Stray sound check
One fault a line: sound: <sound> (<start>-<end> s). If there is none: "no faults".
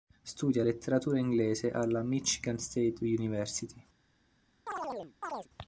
sound: chirp (4.7-5.5 s)